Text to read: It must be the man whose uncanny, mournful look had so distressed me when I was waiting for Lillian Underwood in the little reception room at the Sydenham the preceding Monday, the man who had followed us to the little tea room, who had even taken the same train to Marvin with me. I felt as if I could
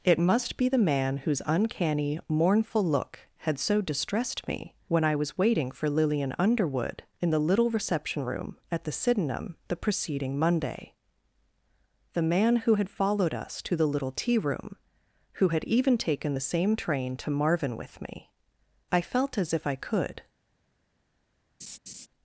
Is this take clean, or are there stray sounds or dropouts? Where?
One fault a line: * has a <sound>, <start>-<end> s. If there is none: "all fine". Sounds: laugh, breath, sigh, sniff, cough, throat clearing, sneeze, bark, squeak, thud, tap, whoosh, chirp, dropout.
* has a laugh, 21.6-22.1 s